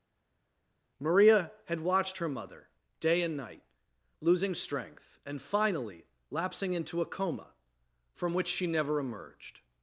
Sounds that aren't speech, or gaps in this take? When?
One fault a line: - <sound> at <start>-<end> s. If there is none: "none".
none